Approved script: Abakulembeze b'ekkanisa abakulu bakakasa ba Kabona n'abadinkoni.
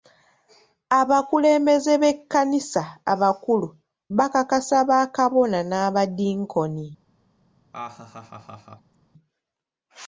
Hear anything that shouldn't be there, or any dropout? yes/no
yes